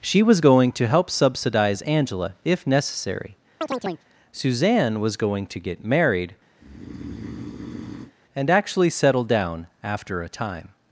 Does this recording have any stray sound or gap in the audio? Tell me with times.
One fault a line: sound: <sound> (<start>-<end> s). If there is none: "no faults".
sound: chirp (3.6-4.1 s)
sound: breath (6.6-8.1 s)